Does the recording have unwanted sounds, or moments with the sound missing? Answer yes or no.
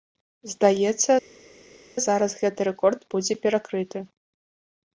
no